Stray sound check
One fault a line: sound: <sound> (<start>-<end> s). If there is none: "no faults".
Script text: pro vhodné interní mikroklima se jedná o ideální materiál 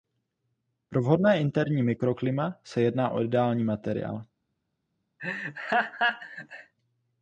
sound: laugh (5.2-6.7 s)